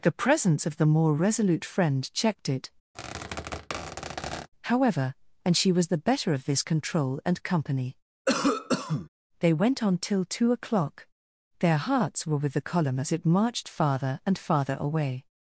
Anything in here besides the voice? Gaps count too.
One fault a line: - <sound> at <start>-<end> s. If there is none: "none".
- squeak at 2.9-4.5 s
- cough at 8.3-9.1 s